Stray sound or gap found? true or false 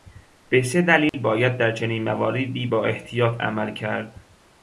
true